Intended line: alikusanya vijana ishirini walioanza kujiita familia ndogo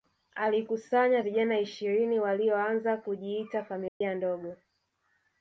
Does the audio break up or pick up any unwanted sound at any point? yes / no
yes